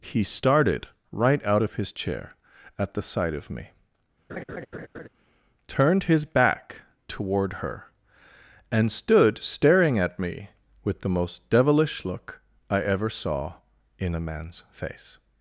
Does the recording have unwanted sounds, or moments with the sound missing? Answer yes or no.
yes